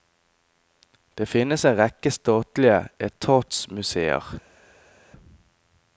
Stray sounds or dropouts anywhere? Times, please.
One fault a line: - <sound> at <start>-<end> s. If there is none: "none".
none